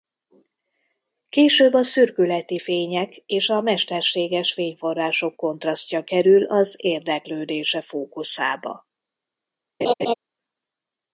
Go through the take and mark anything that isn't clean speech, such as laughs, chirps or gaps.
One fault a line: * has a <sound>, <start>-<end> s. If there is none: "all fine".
* has a laugh, 9.8-10.1 s